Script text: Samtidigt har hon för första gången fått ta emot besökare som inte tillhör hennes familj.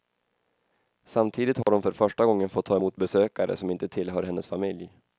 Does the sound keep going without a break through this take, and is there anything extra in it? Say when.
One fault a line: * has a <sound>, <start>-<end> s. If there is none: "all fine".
* has a dropout, 1.6-1.7 s